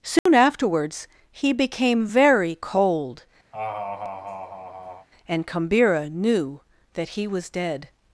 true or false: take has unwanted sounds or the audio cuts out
true